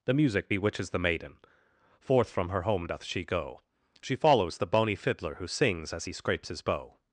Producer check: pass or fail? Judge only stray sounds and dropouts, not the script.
pass